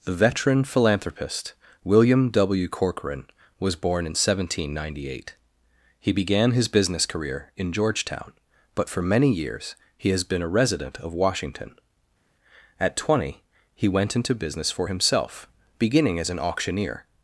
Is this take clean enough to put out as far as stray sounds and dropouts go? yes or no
yes